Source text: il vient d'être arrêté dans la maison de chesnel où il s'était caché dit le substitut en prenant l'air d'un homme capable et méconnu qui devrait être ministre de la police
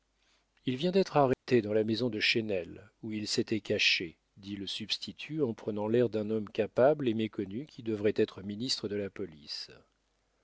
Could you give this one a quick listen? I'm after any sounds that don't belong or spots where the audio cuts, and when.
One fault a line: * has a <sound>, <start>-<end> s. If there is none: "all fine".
* has a dropout, 1.3-1.5 s